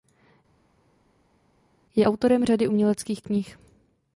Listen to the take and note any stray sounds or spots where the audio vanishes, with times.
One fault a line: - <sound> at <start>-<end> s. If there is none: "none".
none